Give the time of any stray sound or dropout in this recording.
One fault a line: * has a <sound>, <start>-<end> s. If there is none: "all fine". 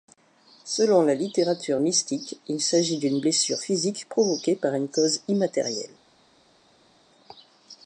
all fine